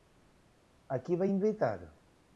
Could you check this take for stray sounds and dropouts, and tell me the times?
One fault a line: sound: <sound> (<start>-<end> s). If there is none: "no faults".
no faults